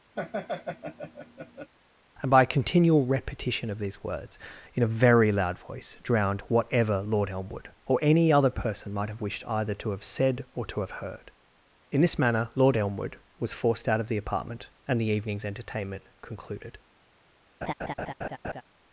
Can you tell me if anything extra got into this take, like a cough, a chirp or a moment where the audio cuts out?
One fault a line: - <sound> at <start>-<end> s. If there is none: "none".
- laugh at 0.2-1.7 s
- laugh at 17.6-18.6 s